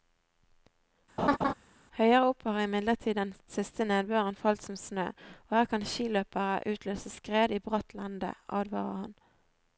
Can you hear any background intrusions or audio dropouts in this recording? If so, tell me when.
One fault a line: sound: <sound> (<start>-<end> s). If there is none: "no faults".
sound: laugh (1.2-1.5 s)